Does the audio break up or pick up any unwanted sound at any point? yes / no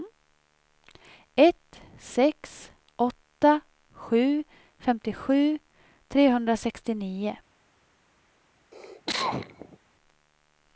yes